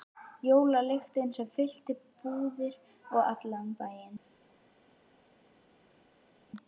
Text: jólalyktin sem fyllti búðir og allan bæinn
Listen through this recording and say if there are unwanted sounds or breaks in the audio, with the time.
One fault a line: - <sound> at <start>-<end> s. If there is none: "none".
none